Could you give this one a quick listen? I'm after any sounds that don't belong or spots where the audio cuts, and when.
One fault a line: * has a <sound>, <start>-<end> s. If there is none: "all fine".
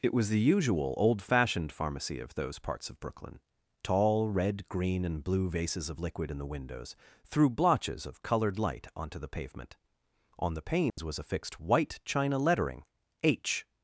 * has a dropout, 10.9-11.0 s